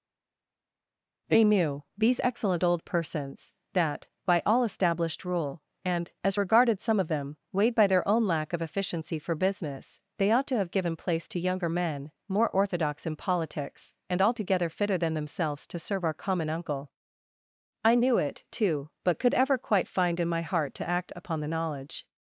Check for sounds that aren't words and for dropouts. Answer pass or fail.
pass